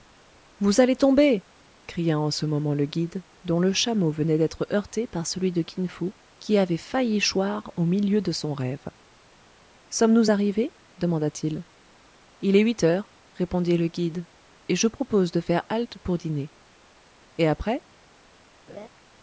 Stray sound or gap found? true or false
true